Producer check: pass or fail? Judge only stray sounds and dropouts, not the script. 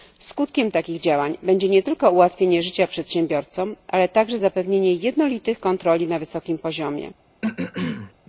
fail